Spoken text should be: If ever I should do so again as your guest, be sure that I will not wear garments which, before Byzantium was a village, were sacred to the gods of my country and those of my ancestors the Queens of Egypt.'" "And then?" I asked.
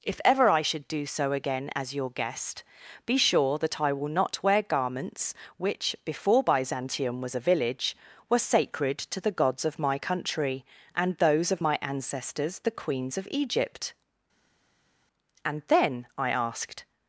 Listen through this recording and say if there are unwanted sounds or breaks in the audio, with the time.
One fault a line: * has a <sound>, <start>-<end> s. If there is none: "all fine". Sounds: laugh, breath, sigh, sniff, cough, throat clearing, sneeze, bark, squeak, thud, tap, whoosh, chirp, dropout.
all fine